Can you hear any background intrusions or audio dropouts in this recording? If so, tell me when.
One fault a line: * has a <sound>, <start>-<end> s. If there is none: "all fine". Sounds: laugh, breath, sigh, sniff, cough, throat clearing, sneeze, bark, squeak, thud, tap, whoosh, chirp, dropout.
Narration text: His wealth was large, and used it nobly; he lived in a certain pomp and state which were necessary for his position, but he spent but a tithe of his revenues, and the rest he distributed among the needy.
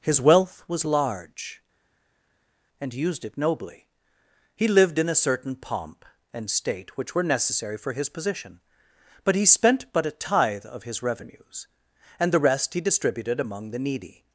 all fine